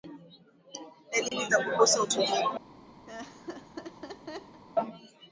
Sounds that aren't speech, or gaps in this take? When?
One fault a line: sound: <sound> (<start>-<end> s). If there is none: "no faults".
sound: dropout (1.3-1.3 s)
sound: laugh (3.1-4.6 s)